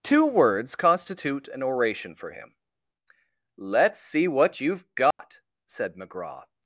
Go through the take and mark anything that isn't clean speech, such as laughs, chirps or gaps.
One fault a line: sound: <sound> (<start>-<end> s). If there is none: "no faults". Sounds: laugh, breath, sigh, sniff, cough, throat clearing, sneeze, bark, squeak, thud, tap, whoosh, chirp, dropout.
sound: dropout (5.1-5.2 s)